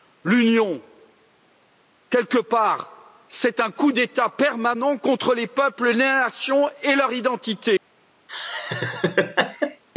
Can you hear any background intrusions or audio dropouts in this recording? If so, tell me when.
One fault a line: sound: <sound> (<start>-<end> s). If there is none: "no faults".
sound: laugh (8.3-9.8 s)